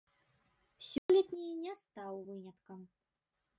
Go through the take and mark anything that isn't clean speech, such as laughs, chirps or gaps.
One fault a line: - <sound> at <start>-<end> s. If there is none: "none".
- dropout at 1.0-1.1 s